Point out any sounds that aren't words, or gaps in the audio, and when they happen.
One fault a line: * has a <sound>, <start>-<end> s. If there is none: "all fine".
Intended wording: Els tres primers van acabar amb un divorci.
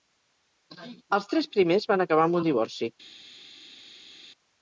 all fine